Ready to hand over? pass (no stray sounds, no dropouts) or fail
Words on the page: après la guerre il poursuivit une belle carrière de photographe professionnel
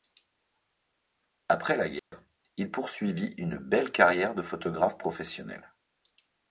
fail